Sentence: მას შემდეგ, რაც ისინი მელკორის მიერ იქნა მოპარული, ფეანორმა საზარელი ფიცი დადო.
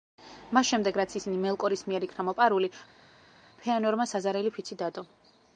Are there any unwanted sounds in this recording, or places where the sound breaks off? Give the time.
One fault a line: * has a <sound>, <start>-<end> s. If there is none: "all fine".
all fine